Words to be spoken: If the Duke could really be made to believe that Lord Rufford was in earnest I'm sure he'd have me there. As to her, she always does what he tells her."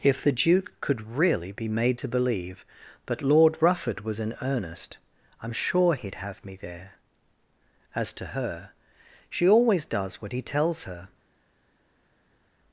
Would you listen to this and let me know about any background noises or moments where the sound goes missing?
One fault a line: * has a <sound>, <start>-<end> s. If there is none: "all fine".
all fine